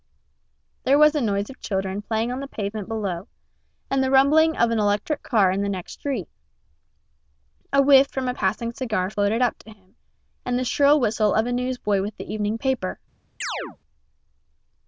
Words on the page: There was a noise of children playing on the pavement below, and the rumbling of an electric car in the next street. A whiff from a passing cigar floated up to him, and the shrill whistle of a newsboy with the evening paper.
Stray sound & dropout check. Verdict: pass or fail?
fail